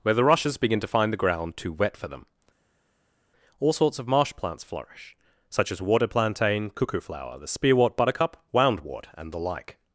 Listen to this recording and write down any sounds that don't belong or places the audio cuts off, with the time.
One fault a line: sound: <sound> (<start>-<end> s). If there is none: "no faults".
no faults